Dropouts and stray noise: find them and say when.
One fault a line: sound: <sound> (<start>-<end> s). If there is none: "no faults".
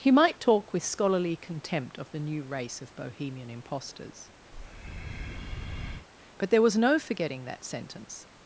sound: breath (4.5-6.1 s)